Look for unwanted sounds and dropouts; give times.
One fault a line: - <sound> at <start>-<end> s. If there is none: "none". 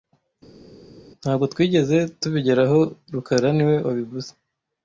none